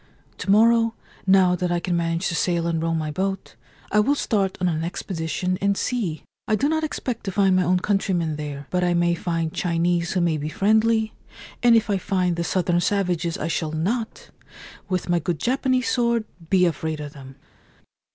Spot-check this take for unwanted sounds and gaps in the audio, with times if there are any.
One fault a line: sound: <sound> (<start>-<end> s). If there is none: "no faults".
no faults